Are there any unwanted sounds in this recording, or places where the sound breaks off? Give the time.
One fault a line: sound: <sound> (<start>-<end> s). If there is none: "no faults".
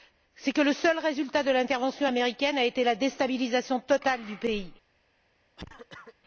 sound: cough (5.6-6.1 s)